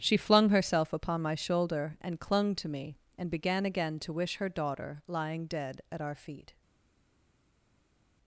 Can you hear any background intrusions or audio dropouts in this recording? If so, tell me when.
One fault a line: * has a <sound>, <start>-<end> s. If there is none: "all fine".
all fine